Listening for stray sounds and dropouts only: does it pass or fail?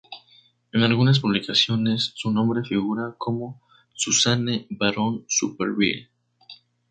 pass